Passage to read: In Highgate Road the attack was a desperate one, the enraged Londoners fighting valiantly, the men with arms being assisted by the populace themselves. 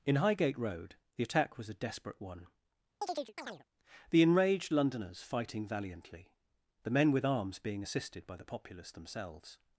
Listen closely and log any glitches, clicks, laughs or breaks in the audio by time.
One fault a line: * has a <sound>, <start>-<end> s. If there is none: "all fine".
* has a chirp, 3.0-3.6 s